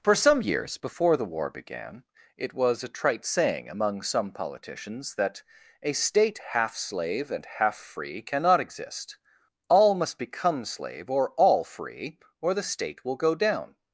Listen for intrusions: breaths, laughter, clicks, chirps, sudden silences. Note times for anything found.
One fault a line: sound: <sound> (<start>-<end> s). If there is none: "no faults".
no faults